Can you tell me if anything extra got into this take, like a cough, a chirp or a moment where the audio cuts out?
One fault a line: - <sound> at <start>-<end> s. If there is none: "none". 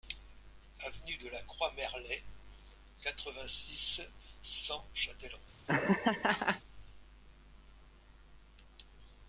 - laugh at 5.7-6.6 s